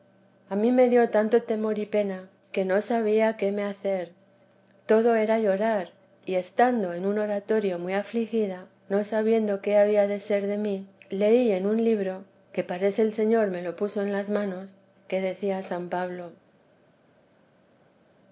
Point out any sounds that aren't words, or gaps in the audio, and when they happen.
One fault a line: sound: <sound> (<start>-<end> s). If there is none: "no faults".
no faults